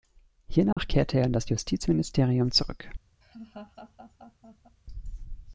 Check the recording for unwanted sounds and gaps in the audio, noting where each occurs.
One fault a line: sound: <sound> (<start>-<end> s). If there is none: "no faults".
sound: dropout (0.7-0.8 s)
sound: laugh (3.2-4.8 s)